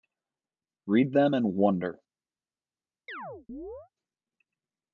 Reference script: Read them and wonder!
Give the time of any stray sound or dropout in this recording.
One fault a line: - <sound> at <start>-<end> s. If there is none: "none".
- chirp at 3.1-3.9 s